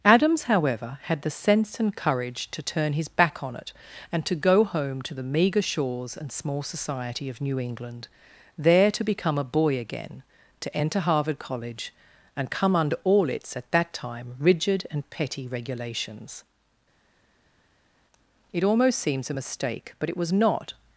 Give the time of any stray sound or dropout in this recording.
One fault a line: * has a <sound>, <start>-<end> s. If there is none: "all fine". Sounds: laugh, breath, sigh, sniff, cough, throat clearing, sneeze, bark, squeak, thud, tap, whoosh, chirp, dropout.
all fine